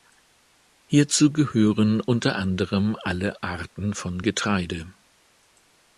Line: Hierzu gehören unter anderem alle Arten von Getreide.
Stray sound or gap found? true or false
false